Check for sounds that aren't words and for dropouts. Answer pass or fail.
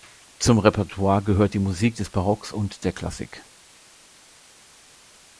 pass